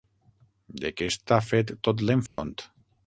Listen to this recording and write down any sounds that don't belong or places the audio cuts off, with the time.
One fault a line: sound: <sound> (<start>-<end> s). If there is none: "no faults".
sound: dropout (2.3-2.4 s)